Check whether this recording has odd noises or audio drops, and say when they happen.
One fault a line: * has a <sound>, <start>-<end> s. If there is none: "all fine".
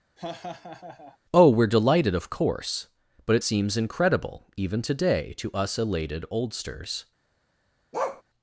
* has a laugh, 0.2-1.2 s
* has a bark, 7.9-8.2 s